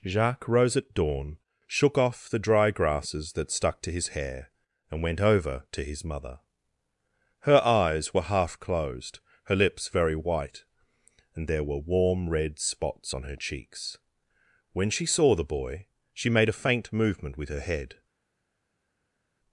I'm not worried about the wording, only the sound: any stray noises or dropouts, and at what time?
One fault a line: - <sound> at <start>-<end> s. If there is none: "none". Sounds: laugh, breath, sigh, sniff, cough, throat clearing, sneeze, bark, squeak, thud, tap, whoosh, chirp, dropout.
none